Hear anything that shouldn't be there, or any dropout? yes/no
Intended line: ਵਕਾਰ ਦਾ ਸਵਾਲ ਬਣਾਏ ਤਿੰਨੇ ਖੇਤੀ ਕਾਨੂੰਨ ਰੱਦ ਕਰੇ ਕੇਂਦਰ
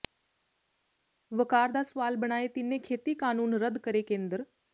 no